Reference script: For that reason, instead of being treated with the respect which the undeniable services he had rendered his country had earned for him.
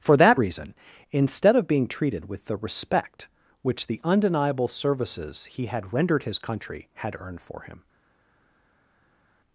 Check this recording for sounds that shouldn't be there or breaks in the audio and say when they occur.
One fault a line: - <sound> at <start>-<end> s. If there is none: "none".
none